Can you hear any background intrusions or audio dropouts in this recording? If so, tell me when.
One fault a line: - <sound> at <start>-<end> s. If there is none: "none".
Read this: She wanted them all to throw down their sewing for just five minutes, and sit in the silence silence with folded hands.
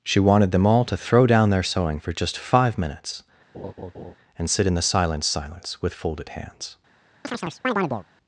- laugh at 3.5-4.2 s
- chirp at 7.2-8.1 s